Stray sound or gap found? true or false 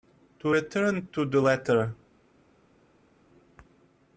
false